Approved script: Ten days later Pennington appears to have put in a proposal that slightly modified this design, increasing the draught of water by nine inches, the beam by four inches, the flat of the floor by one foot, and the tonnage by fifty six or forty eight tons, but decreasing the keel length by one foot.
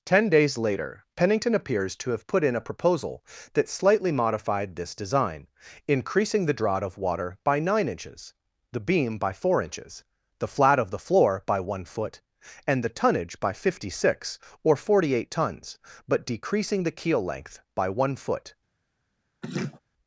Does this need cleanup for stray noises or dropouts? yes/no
yes